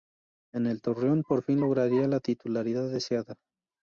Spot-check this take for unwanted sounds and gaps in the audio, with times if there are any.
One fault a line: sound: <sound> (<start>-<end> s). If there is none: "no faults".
no faults